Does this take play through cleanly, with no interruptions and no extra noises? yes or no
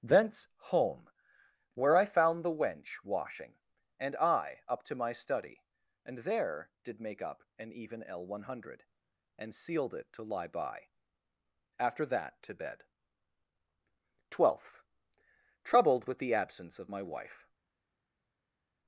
yes